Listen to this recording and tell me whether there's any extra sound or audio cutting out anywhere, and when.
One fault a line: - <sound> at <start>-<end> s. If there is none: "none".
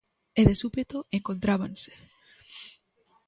none